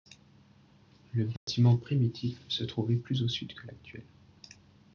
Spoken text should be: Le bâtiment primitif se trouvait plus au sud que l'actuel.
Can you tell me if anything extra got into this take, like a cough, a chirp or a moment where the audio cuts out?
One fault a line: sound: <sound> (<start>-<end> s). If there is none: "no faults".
sound: dropout (1.4-1.5 s)